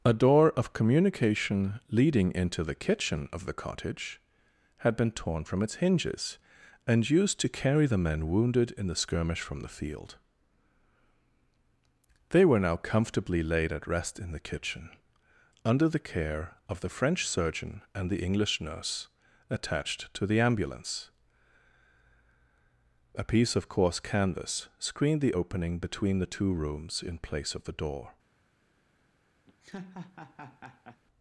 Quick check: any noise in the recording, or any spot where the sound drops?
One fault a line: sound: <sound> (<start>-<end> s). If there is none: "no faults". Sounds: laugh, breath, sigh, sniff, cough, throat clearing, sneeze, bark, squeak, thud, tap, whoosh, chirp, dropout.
sound: laugh (29.5-31.0 s)